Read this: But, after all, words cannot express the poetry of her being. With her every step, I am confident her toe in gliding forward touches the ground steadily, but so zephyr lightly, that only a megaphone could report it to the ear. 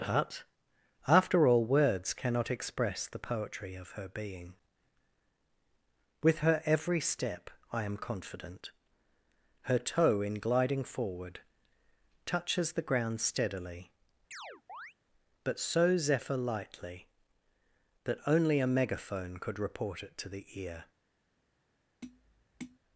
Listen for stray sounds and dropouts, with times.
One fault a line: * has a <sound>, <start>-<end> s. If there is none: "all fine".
* has a chirp, 14.3-14.9 s
* has a tap, 22.0-22.8 s